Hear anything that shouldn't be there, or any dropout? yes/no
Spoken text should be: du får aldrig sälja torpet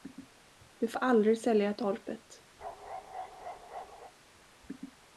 yes